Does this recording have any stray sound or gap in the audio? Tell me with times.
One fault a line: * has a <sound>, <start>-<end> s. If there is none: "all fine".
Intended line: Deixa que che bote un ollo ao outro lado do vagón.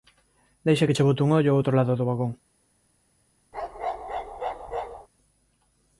* has a bark, 3.5-5.1 s